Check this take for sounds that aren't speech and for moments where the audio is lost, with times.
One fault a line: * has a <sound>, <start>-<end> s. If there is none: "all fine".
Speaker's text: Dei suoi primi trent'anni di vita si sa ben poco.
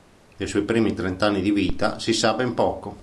all fine